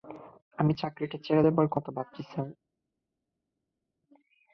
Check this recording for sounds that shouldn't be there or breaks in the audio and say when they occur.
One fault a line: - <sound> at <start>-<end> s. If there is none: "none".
none